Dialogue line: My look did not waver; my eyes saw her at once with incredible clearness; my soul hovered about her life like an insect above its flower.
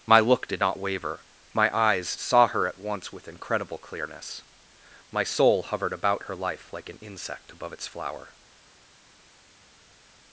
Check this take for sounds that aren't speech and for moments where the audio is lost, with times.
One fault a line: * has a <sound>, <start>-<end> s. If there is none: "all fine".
all fine